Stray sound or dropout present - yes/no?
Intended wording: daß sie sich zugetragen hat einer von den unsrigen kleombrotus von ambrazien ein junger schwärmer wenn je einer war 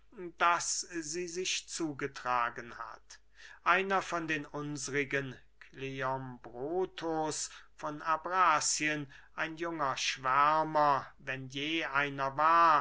no